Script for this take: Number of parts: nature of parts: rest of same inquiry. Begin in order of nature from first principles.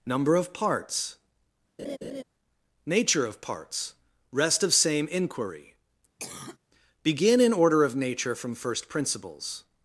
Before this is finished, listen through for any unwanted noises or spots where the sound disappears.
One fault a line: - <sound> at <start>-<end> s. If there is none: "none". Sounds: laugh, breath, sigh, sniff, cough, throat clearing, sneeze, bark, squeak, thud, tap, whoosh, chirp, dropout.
- laugh at 1.8-2.2 s
- cough at 6.2-6.6 s